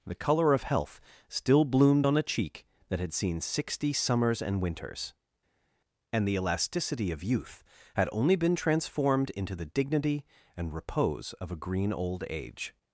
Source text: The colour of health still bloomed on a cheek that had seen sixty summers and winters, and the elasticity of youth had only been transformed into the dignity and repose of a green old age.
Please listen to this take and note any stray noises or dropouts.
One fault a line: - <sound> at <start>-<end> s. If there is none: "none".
none